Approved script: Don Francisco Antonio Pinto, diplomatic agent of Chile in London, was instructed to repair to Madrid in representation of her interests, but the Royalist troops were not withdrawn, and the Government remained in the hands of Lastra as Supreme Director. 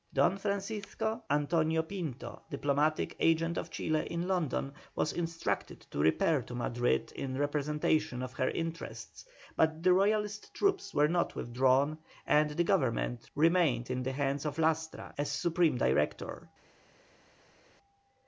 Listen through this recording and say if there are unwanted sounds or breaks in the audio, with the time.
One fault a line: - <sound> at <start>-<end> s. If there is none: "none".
none